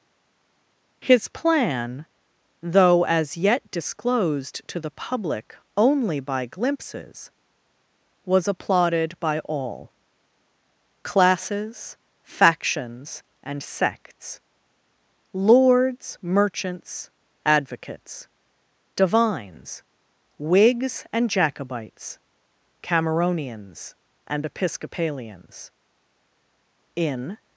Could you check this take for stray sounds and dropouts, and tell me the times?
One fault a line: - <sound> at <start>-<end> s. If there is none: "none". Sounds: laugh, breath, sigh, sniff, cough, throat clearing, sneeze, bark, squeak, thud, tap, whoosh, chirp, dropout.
none